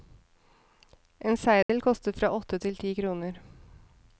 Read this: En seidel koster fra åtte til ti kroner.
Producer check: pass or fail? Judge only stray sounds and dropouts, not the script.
fail